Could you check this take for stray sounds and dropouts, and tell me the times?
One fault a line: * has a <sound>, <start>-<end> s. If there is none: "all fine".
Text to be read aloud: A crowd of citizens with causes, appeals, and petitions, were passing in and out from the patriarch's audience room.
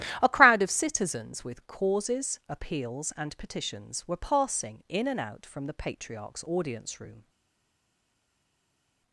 all fine